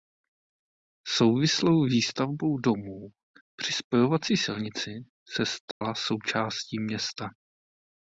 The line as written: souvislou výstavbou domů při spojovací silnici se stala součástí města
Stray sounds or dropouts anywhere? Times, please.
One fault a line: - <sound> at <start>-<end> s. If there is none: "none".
- dropout at 5.7-5.8 s